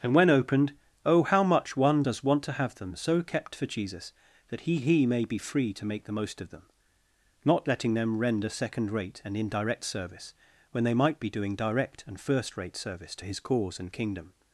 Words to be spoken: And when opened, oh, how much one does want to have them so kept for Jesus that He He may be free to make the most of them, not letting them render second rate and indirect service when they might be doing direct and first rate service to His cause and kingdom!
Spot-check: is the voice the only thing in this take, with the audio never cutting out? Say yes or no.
yes